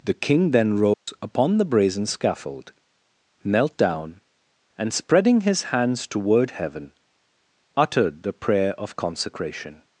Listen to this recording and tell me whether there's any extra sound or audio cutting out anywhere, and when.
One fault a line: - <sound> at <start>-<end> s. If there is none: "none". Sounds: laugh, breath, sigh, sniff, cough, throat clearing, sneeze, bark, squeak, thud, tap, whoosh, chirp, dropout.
- dropout at 0.9-1.1 s